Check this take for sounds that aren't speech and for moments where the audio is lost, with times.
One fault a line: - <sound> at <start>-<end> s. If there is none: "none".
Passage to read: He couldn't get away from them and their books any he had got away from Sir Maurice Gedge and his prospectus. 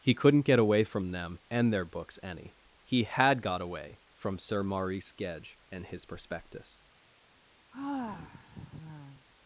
- sigh at 7.7-9.3 s